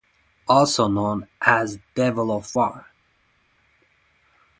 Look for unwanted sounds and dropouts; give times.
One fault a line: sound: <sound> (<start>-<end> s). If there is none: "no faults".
no faults